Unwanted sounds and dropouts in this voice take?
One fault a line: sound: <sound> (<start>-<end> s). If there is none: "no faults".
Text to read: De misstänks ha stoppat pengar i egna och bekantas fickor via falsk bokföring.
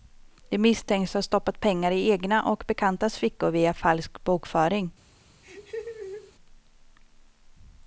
sound: laugh (5.4-6.3 s)